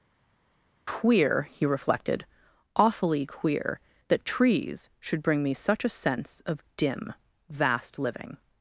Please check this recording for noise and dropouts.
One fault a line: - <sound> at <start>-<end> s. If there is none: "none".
none